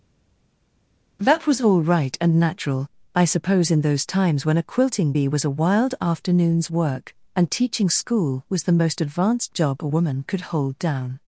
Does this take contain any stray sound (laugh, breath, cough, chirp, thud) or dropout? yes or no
no